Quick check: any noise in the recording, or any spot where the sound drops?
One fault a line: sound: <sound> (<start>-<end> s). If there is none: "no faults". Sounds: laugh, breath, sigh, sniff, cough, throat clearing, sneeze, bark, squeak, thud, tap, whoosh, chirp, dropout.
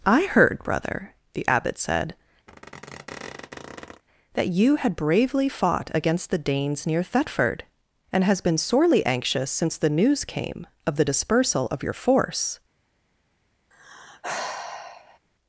sound: squeak (2.5-4.0 s)
sound: sigh (13.7-15.2 s)